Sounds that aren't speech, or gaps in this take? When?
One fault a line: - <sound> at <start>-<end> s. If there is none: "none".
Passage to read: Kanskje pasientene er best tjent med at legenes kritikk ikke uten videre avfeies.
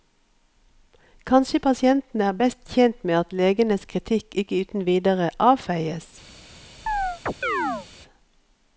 - chirp at 6.9-7.9 s